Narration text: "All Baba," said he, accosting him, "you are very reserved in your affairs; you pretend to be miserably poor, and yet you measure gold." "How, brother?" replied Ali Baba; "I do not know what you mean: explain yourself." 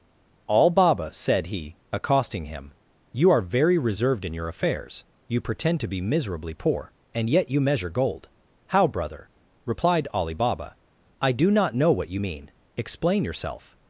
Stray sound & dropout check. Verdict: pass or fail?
pass